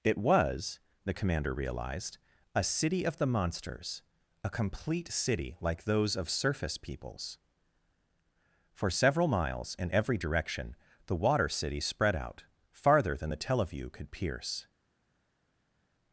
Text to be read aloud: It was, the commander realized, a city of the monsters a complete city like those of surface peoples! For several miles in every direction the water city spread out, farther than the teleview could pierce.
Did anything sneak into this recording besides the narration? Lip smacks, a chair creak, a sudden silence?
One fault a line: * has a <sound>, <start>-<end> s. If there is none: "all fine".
all fine